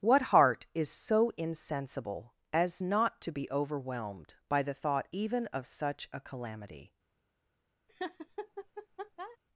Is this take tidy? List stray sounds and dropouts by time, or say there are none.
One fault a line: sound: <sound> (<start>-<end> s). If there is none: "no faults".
sound: laugh (7.9-9.4 s)